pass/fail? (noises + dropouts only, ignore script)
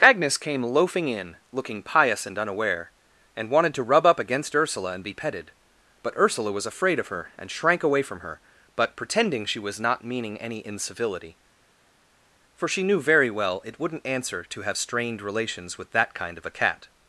pass